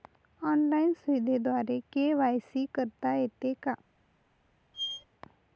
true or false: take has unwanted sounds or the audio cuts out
true